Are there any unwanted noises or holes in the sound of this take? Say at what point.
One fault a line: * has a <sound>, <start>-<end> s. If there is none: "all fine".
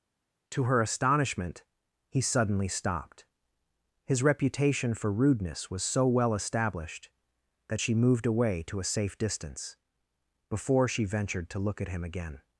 all fine